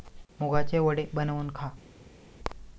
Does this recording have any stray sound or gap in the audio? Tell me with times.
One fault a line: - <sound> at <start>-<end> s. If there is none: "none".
none